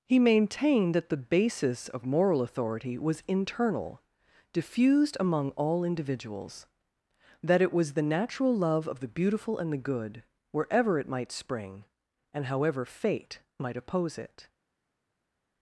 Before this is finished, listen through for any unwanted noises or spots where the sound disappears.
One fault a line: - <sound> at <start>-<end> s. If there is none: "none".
none